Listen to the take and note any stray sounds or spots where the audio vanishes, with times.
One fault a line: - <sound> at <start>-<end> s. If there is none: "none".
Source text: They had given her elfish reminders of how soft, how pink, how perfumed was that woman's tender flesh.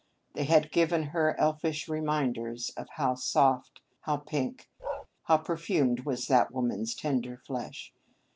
- bark at 4.8-5.1 s